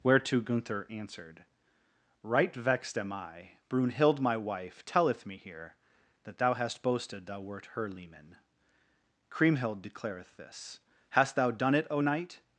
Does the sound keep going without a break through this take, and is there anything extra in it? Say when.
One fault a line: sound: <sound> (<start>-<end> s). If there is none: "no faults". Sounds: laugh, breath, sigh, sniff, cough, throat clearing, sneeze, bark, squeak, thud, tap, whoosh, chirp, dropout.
no faults